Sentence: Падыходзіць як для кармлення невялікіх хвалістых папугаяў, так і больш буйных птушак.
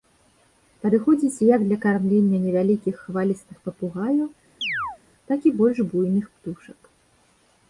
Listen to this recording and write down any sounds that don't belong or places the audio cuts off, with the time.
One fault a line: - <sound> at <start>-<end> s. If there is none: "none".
- chirp at 4.6-5.0 s